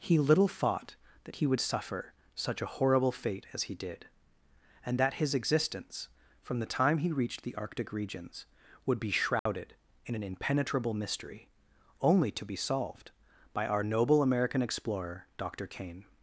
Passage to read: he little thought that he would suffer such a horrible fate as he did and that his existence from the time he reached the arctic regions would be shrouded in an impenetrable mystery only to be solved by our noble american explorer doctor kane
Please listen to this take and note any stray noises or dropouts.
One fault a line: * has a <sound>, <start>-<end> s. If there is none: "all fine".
* has a dropout, 9.4-9.5 s